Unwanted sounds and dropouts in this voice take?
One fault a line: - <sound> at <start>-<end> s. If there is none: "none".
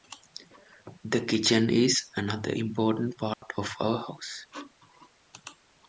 - dropout at 3.3-3.4 s